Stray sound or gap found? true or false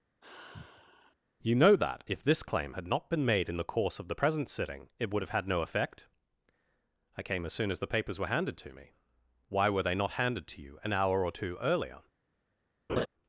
true